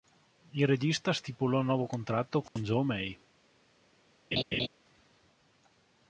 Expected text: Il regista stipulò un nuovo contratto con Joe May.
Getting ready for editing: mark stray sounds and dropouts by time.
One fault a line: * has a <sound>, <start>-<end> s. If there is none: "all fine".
* has a dropout, 2.5-2.6 s
* has a laugh, 4.3-4.7 s